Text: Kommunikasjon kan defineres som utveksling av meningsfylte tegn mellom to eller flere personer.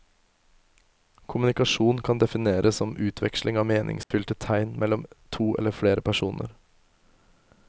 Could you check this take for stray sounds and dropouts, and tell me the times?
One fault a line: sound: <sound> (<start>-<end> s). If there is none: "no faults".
sound: dropout (4.0-4.1 s)